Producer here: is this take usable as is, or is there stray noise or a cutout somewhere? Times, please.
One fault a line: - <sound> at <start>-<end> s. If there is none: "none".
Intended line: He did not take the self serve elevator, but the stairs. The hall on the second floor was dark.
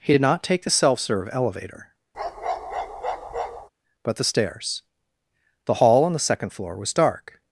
- bark at 2.1-3.7 s